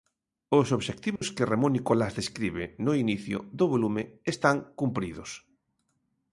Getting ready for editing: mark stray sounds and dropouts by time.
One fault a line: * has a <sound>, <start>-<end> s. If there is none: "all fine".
* has a dropout, 1.2-1.2 s